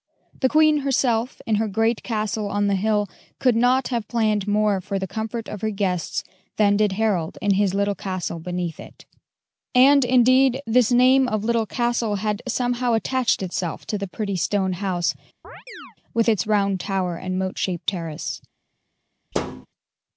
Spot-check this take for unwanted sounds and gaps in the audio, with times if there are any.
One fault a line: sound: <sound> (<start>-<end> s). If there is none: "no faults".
sound: chirp (15.4-16.0 s)
sound: thud (19.3-19.7 s)